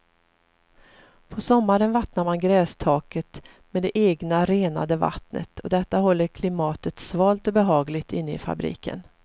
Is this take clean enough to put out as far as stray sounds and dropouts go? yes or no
yes